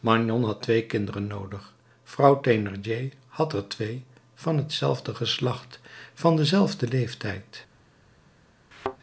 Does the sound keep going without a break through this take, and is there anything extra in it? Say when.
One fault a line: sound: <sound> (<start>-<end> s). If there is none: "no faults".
sound: thud (8.7-9.0 s)